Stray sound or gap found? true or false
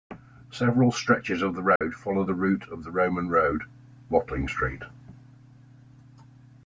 true